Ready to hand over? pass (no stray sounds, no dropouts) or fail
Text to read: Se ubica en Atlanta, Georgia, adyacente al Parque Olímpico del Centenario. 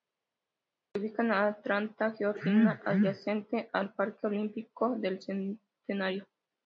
pass